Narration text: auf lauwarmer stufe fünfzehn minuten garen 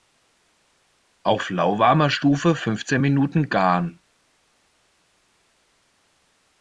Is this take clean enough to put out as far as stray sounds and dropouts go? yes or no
yes